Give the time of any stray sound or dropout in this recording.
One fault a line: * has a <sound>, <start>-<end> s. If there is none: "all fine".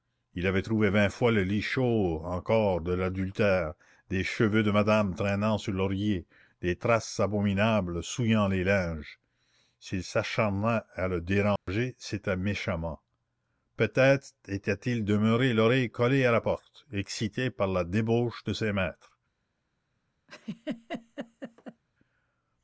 * has a dropout, 11.6-11.7 s
* has a laugh, 20.3-21.8 s